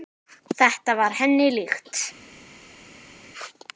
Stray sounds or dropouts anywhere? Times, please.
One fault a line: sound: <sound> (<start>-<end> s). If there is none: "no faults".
no faults